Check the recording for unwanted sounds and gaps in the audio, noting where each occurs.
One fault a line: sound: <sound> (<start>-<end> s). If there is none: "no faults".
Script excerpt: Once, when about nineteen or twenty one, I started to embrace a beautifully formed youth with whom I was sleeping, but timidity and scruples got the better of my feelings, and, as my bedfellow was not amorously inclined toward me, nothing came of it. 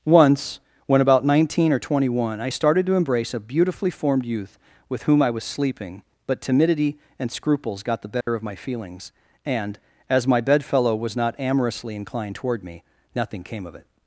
sound: dropout (8.2-8.3 s)